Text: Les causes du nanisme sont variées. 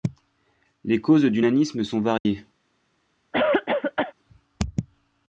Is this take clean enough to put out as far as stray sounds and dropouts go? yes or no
no